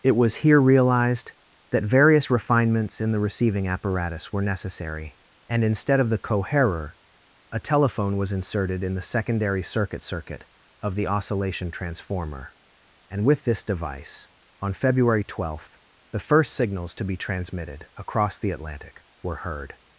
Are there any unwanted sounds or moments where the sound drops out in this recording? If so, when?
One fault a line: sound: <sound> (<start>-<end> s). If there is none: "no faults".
no faults